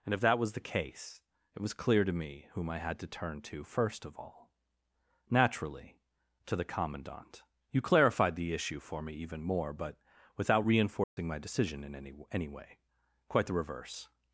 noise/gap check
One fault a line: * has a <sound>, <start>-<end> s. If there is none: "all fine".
* has a dropout, 11.0-11.2 s